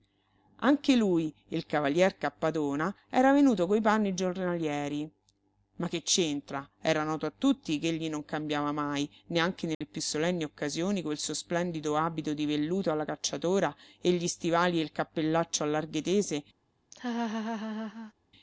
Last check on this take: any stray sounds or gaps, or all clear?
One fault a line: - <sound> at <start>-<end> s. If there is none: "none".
- dropout at 9.7-9.8 s
- laugh at 16.9-18.1 s